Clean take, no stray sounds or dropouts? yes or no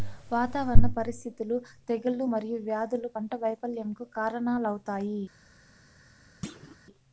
no